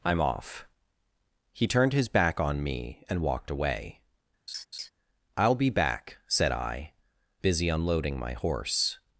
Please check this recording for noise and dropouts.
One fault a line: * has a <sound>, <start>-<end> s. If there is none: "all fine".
* has a laugh, 4.5-4.9 s